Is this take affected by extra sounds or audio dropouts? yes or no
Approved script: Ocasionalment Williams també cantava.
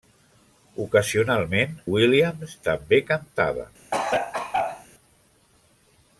yes